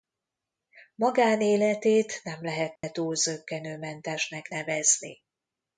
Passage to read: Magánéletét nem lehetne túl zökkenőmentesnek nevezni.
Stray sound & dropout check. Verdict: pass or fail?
fail